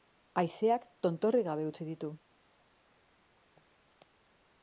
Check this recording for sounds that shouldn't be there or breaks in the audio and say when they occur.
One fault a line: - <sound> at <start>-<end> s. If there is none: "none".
none